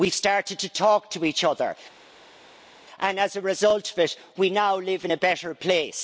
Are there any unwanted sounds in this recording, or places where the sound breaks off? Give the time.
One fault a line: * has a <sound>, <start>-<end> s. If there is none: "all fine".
all fine